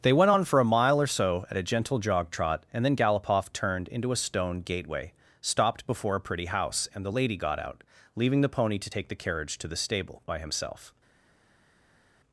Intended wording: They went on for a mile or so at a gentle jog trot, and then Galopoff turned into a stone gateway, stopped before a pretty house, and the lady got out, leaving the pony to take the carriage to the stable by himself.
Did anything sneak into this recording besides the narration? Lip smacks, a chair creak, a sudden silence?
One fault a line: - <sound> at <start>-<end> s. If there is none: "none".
none